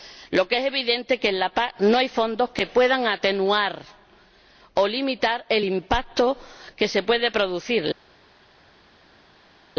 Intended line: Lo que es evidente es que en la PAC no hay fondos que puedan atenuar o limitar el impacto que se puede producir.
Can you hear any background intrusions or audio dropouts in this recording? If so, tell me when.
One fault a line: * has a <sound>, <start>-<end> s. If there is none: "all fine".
all fine